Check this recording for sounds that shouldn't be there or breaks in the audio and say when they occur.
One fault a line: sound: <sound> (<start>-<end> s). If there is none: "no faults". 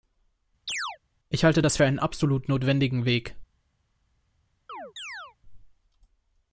sound: chirp (0.7-1.0 s)
sound: chirp (4.7-5.4 s)